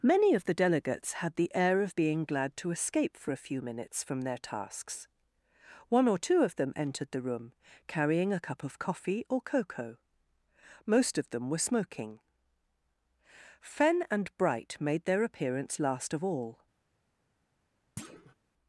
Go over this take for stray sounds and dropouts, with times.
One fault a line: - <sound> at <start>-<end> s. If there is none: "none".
- thud at 18.0-18.3 s